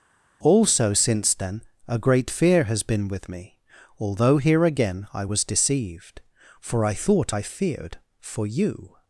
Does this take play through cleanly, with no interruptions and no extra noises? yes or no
yes